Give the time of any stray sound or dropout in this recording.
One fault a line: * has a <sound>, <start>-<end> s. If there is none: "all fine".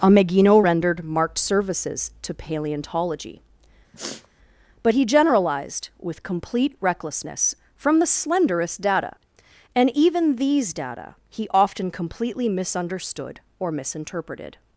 * has a sniff, 3.9-4.3 s